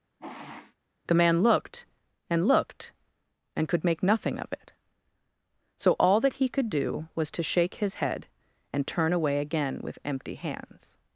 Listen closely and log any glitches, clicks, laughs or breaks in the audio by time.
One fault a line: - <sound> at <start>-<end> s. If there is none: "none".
- sniff at 0.2-0.8 s